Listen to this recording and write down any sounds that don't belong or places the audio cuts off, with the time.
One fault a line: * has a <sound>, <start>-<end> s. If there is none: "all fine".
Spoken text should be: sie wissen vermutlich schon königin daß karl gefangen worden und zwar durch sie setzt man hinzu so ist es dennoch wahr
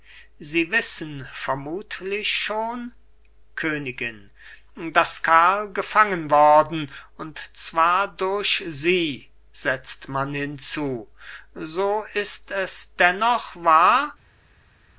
all fine